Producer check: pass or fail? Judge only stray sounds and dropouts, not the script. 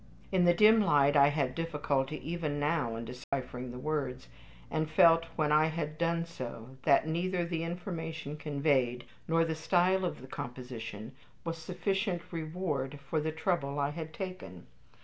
fail